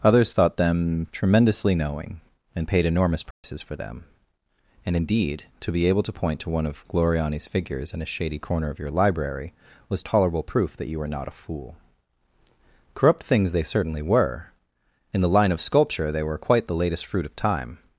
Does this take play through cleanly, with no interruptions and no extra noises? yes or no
no